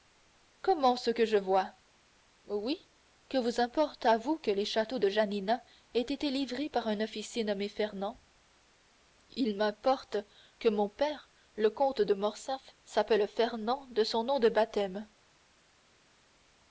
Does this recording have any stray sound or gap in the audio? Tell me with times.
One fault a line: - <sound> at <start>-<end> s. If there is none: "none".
none